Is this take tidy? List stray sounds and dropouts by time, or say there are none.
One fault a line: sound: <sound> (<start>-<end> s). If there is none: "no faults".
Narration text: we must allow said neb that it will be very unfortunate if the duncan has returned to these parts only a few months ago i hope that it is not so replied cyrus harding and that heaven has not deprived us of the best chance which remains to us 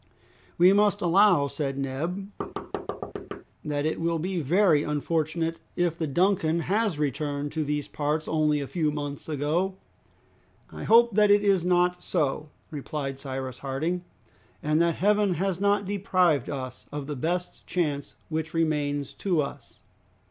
sound: thud (2.4-3.4 s)